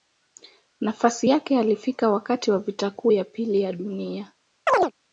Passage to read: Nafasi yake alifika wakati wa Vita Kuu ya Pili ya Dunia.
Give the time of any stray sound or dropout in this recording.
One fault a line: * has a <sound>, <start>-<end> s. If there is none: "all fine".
* has a chirp, 4.7-4.9 s